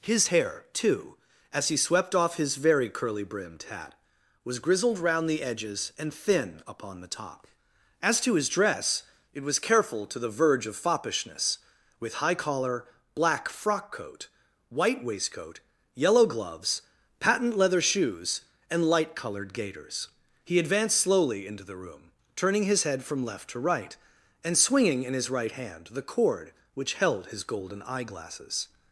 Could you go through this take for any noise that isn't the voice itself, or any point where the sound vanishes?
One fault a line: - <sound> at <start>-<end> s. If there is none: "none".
none